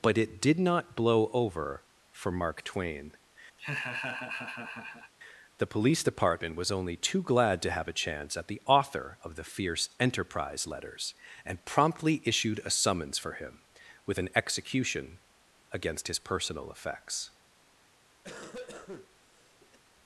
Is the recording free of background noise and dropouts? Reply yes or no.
no